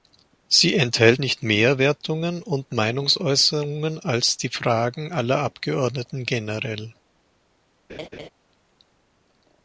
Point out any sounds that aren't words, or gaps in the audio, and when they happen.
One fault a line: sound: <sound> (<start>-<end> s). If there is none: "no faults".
sound: laugh (7.9-8.3 s)